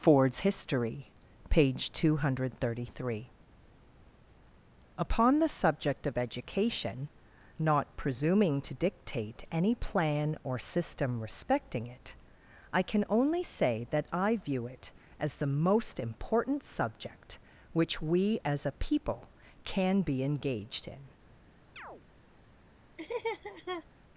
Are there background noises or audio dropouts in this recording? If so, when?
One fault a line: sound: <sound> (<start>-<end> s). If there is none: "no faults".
sound: chirp (21.8-22.0 s)
sound: laugh (23.0-23.9 s)